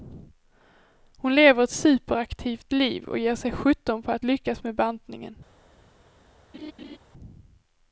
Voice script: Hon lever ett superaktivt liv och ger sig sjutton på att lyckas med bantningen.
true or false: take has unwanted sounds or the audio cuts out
true